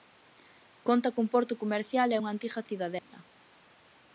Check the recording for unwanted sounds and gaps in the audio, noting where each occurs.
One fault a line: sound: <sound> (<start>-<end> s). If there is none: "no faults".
sound: dropout (3.0-3.1 s)